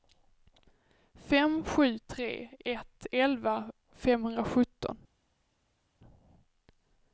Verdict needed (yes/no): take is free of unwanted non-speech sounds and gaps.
yes